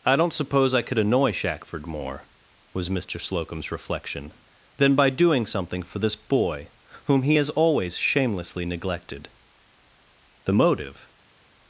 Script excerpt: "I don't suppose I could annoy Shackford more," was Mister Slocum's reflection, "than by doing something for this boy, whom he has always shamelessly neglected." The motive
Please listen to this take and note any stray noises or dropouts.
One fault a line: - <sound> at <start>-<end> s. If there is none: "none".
none